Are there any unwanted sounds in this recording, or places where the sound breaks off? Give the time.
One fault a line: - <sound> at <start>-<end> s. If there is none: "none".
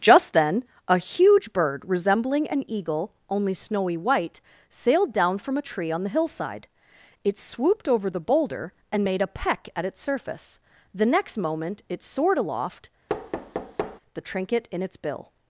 - thud at 13.1-14.0 s